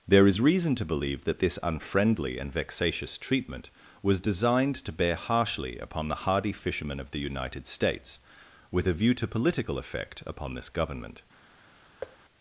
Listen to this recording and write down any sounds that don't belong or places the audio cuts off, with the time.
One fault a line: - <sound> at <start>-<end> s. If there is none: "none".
- thud at 12.0-12.2 s